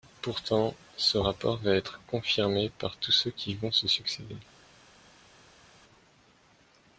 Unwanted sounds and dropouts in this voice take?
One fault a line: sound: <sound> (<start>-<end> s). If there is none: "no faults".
no faults